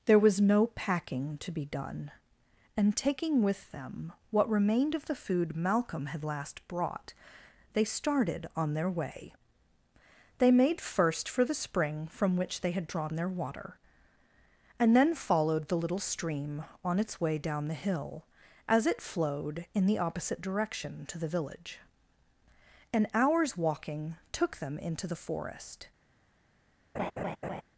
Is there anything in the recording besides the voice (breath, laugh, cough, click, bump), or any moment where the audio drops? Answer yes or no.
yes